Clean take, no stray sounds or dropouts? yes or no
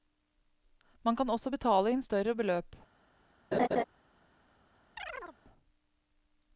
no